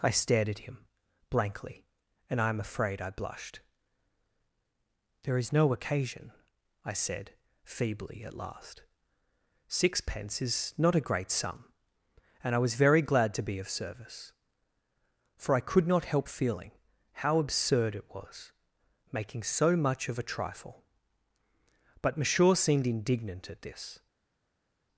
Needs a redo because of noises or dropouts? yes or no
no